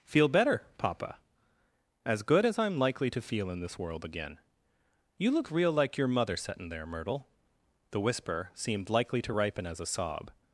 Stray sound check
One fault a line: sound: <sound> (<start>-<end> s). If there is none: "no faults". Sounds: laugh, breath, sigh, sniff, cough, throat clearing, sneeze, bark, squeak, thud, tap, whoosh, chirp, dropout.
no faults